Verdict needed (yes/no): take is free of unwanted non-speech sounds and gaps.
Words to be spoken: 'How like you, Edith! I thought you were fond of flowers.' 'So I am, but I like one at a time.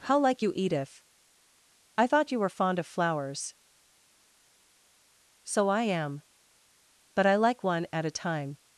yes